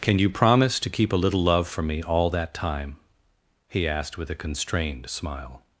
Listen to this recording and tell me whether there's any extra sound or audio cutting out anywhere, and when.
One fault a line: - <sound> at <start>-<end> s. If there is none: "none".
none